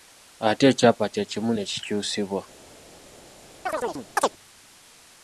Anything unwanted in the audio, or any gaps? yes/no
yes